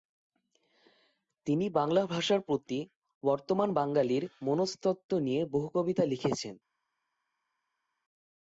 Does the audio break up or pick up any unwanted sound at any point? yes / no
no